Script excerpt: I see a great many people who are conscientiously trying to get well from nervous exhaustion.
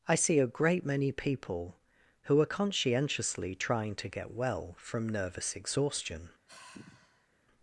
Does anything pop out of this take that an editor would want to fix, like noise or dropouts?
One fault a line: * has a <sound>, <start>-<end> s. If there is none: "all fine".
* has a sigh, 6.5-7.3 s